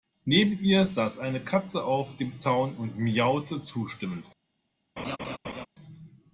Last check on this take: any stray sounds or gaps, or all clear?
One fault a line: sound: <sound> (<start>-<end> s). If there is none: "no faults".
sound: laugh (5.0-5.7 s)